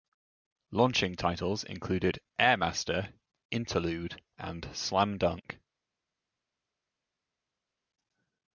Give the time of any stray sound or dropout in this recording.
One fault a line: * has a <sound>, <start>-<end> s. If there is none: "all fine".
all fine